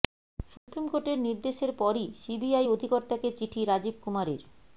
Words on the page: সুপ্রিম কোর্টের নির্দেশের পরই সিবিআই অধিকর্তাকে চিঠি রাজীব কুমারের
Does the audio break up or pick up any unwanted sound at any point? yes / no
yes